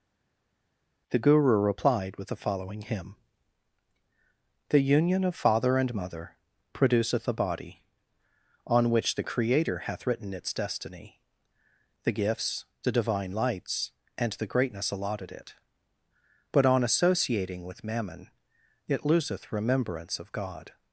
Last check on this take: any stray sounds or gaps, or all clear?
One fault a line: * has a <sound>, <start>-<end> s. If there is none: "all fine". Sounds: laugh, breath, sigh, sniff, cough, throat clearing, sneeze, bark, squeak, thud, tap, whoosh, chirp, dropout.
all fine